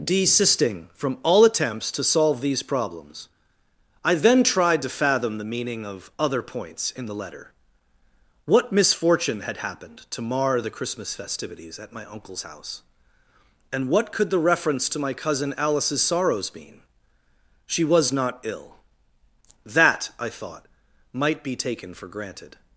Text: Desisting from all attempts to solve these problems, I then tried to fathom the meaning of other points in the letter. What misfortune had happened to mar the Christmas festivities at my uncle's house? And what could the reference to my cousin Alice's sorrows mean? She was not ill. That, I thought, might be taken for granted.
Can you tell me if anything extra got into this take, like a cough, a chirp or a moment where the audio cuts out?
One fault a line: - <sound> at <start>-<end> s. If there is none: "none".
none